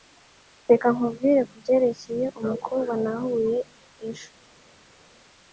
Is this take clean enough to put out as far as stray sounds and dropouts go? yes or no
yes